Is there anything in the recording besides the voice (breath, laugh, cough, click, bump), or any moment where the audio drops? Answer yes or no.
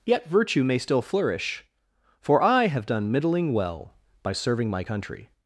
no